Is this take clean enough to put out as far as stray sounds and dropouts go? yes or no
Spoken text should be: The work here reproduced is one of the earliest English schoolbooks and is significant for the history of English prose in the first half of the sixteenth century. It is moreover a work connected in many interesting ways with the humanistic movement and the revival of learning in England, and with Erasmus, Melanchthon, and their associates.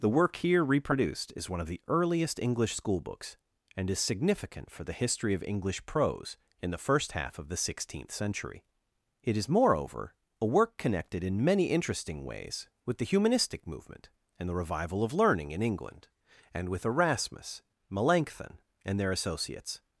yes